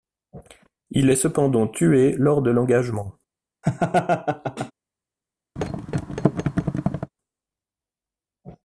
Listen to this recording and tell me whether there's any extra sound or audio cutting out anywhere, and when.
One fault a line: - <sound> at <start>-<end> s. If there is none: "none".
- laugh at 3.6-4.7 s
- thud at 5.6-7.1 s